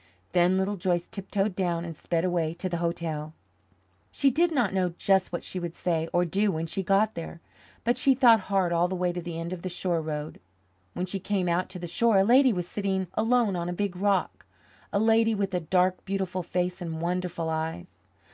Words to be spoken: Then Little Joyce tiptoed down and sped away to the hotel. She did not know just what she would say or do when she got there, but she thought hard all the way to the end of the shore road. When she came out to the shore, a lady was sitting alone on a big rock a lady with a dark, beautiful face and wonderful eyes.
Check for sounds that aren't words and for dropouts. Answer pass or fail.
pass